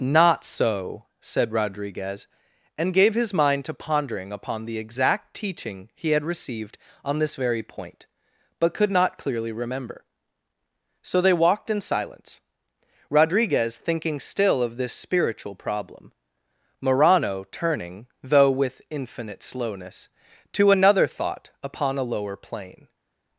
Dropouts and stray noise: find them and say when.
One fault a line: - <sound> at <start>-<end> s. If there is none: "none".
none